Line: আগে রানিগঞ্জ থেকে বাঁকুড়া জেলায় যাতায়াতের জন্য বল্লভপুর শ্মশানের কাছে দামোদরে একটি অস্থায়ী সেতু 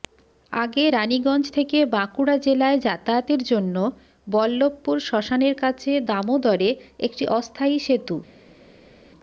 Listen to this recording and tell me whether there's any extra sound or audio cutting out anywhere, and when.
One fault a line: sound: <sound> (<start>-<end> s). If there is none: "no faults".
no faults